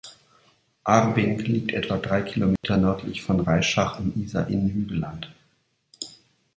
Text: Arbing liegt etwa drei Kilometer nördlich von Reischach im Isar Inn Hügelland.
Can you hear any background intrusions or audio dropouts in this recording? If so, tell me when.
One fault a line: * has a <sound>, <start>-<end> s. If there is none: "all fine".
* has a dropout, 2.6-2.6 s